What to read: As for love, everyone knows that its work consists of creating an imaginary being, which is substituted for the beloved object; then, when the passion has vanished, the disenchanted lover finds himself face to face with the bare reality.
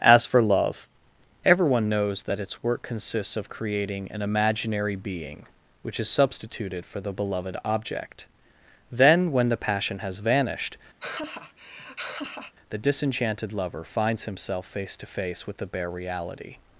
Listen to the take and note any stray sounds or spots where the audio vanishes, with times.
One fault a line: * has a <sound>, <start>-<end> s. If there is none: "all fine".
* has a laugh, 11.0-12.5 s